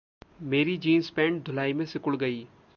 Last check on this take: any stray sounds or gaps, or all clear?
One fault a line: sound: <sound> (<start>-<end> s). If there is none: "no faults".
no faults